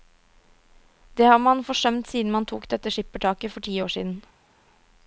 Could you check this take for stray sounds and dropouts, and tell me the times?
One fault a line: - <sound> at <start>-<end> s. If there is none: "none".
none